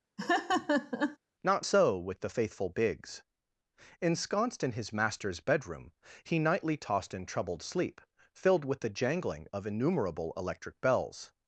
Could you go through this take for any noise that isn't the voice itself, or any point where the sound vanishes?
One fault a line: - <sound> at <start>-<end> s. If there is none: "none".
- laugh at 0.2-1.2 s